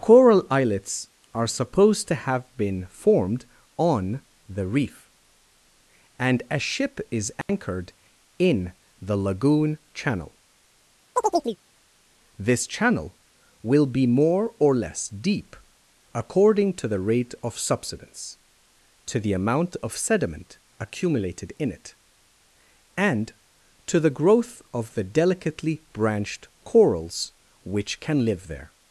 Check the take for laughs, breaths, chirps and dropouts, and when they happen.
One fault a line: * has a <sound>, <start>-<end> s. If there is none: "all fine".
* has a dropout, 7.4-7.5 s
* has a chirp, 11.2-11.6 s